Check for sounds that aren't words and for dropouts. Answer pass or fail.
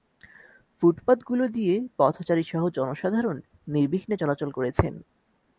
pass